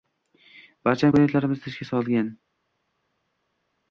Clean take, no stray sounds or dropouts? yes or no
yes